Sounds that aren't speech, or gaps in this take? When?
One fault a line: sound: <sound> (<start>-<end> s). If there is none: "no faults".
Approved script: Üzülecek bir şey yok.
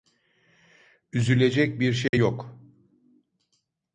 sound: dropout (2.1-2.1 s)